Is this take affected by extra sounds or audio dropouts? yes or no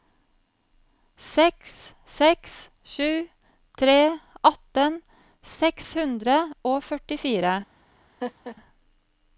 yes